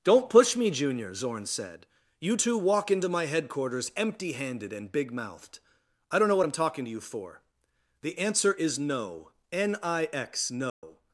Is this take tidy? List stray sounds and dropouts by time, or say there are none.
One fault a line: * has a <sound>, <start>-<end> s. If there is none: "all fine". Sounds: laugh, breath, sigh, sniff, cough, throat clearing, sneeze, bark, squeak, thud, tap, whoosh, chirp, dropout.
* has a dropout, 10.7-10.8 s